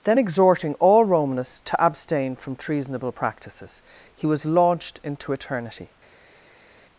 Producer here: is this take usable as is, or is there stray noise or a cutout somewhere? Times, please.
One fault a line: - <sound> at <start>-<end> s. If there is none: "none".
none